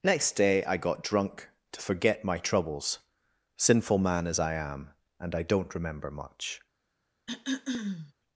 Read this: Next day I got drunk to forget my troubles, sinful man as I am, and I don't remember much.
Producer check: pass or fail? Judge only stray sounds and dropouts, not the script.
fail